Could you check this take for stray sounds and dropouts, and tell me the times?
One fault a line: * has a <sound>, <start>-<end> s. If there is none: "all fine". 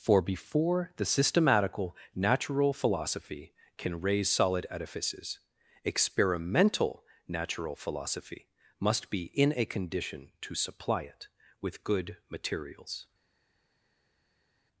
all fine